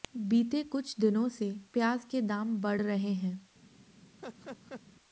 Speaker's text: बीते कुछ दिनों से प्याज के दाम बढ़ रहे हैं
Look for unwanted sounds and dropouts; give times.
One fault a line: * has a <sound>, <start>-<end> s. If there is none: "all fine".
* has a laugh, 4.2-4.8 s